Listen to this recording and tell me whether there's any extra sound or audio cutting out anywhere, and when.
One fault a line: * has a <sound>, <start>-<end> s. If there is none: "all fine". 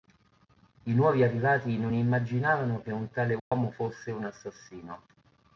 * has a dropout, 3.4-3.5 s